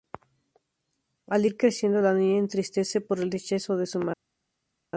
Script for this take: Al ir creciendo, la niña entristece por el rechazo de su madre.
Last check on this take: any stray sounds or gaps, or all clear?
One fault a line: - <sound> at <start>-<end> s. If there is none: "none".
none